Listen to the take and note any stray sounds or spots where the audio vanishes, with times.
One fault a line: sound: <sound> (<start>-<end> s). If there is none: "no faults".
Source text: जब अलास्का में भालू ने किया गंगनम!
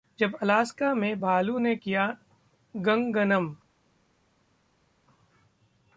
no faults